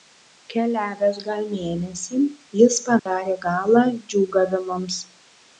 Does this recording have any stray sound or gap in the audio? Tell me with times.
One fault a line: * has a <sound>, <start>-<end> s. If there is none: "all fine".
* has a dropout, 3.0-3.1 s